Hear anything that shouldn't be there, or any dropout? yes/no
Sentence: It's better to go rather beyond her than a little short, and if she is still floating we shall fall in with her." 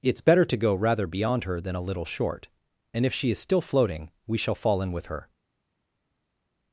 no